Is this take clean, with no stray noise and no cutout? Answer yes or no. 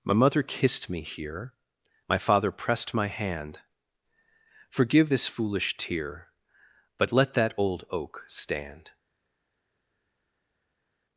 yes